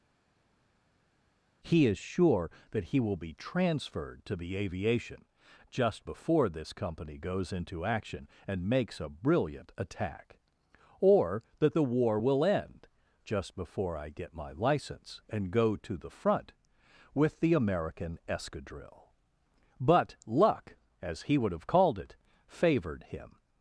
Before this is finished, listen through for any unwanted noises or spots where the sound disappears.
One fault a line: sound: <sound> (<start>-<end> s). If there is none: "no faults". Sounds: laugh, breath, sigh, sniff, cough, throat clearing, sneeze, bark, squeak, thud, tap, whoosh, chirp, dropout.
no faults